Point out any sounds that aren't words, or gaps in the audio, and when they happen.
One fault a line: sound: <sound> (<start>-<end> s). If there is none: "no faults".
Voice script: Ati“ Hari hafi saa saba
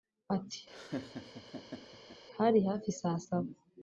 sound: laugh (0.7-2.2 s)